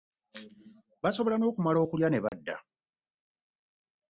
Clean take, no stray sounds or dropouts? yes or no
no